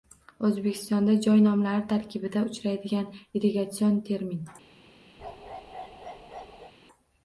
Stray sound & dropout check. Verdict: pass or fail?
fail